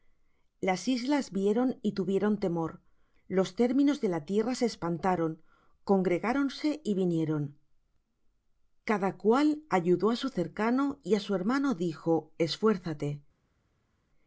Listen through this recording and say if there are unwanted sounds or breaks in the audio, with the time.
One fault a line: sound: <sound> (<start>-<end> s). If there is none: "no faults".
no faults